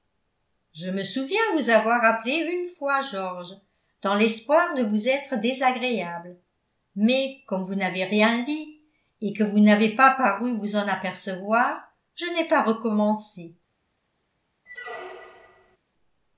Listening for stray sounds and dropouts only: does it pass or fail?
fail